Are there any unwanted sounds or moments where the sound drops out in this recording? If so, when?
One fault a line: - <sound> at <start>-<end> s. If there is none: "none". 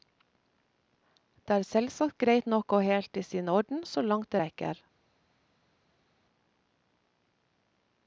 none